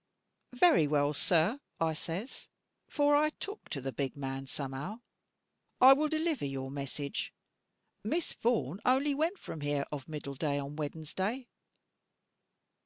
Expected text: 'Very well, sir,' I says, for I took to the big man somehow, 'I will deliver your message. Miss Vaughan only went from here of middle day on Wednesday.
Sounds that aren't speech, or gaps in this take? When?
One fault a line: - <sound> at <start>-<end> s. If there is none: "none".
none